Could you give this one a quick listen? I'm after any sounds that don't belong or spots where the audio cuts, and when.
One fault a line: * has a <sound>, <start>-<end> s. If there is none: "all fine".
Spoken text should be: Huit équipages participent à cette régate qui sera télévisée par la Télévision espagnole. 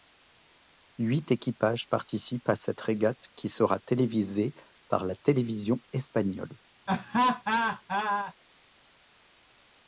* has a laugh, 6.9-8.3 s